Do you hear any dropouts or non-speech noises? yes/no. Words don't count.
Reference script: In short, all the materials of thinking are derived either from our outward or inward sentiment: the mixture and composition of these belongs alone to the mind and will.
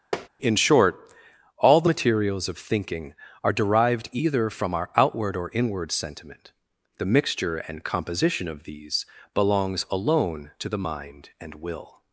yes